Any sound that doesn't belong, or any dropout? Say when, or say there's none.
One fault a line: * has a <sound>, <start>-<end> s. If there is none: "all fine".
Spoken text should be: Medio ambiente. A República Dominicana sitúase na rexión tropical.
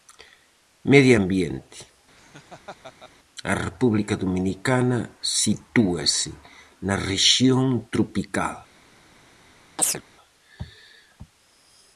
* has a laugh, 2.2-3.1 s
* has a chirp, 9.8-10.0 s